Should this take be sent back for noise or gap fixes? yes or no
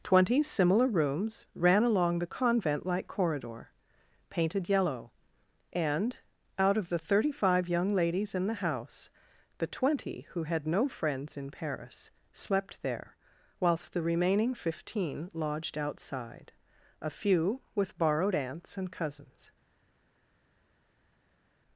no